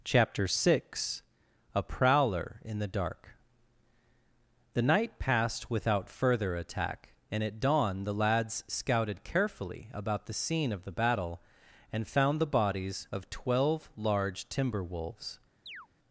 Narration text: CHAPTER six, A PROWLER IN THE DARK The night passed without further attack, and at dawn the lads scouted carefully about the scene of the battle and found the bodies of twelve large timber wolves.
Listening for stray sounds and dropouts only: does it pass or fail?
fail